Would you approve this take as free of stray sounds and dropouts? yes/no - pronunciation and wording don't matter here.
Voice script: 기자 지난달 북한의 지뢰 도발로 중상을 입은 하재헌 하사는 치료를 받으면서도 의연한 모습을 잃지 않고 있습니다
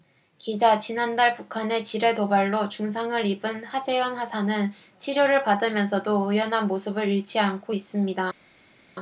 yes